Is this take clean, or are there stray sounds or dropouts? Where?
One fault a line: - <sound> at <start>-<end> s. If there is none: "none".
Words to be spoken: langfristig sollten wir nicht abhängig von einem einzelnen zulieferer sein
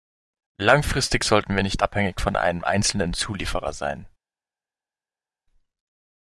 none